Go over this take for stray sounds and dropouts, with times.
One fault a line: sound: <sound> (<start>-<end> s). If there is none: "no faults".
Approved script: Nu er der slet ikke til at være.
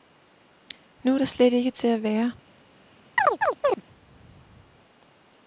sound: chirp (3.2-3.8 s)